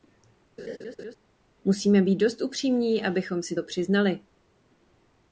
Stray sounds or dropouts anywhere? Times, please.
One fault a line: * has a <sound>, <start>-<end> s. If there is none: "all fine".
* has a laugh, 0.6-1.2 s